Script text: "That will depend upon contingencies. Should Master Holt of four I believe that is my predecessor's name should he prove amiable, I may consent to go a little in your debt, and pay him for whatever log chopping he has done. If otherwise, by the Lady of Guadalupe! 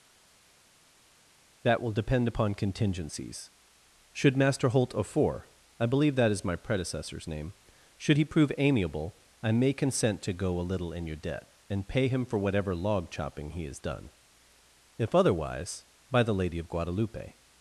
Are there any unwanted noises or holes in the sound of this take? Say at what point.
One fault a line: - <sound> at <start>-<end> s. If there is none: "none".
none